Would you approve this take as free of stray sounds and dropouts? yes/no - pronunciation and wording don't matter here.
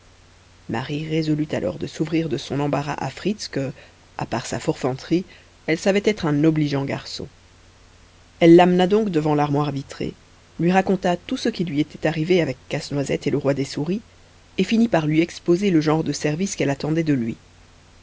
yes